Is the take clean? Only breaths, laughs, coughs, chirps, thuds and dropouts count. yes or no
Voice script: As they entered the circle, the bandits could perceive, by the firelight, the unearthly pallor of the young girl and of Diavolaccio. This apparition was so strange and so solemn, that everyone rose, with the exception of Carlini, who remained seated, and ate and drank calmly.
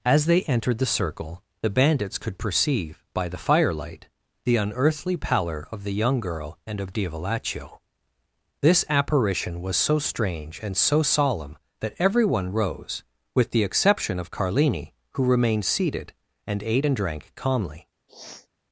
no